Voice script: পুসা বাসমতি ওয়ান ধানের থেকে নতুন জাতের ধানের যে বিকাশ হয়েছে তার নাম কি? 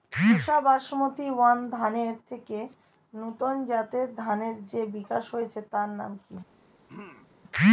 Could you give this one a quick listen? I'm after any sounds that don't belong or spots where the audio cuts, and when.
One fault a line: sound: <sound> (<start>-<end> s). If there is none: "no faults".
sound: throat clearing (6.9-7.3 s)